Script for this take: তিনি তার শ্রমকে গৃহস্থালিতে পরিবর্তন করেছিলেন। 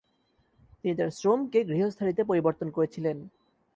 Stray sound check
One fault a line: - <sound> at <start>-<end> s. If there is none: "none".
none